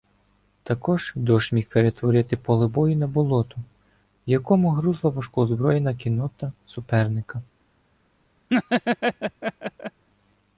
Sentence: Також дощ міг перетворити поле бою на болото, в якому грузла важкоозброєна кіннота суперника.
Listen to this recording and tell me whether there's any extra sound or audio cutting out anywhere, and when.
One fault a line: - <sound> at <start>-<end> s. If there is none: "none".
- laugh at 8.5-10.0 s